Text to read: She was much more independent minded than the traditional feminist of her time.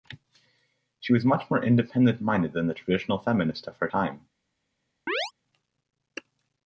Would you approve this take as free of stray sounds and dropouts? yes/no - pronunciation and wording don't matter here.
no